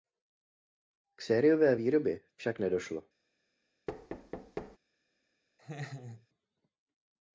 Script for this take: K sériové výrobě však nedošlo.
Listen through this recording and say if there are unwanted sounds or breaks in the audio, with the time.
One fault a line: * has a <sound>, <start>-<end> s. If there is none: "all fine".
* has a thud, 3.9-4.8 s
* has a laugh, 5.6-6.3 s